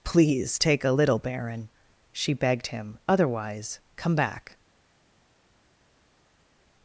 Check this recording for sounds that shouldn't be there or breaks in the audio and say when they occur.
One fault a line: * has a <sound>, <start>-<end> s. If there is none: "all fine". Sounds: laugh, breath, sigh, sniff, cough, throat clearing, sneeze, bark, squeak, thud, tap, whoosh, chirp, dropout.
all fine